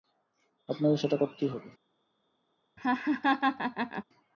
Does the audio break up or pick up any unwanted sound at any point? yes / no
yes